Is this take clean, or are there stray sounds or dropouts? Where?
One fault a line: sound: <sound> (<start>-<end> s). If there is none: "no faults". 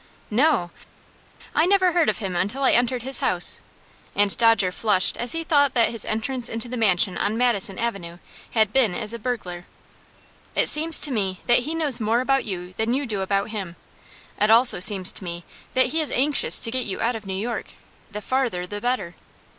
no faults